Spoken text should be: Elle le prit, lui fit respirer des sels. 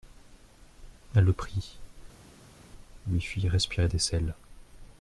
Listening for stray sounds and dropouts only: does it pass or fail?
pass